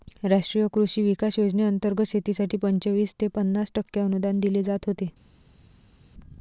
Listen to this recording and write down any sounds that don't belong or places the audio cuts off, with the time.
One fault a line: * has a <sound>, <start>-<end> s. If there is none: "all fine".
all fine